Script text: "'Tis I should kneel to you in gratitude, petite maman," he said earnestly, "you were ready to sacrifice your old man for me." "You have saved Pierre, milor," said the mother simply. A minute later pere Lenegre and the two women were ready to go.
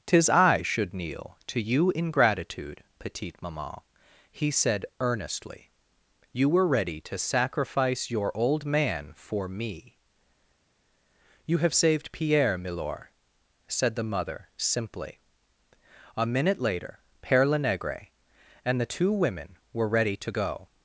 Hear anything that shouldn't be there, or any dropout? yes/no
no